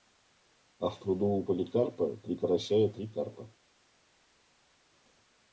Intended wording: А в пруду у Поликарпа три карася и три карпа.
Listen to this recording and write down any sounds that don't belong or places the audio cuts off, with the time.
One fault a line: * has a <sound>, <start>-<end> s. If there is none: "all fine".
all fine